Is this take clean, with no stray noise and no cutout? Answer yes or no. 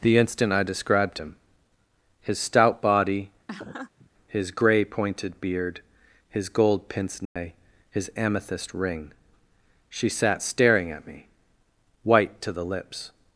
no